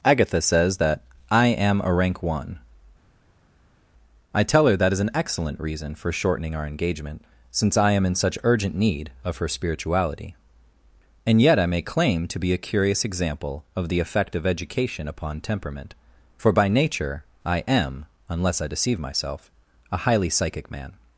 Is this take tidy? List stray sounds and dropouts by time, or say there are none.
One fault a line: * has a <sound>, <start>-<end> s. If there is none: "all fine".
all fine